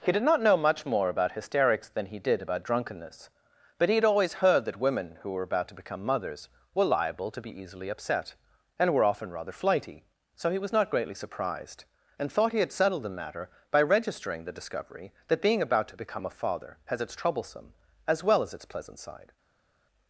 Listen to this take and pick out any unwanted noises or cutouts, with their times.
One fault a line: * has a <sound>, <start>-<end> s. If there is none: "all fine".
all fine